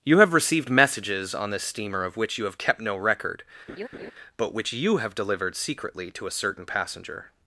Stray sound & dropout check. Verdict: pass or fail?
fail